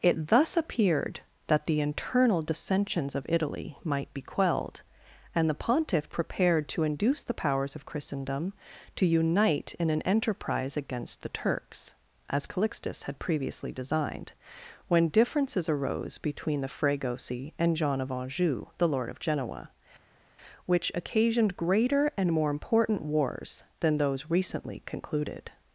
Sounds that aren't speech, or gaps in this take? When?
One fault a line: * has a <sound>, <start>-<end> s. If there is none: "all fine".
all fine